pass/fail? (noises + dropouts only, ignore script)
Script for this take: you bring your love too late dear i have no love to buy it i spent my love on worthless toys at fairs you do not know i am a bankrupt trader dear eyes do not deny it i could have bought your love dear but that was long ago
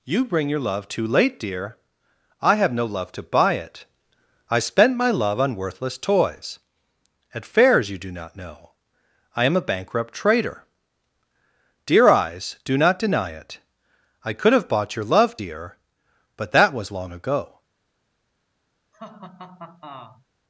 fail